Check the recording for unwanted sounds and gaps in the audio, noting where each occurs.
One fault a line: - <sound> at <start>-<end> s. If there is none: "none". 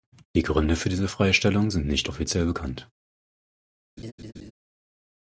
- laugh at 4.0-4.5 s